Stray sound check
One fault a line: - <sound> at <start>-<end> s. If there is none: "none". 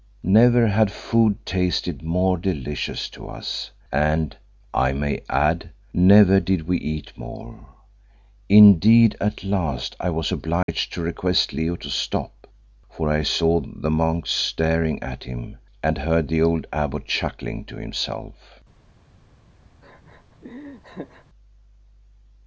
- dropout at 10.6-10.7 s
- laugh at 19.8-21.3 s